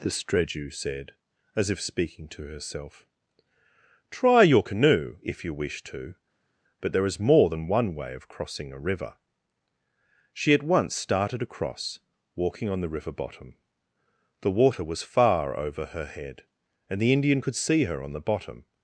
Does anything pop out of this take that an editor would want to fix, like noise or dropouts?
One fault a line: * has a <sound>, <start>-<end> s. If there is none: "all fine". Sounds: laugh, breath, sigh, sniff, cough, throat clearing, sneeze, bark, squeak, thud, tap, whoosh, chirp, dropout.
all fine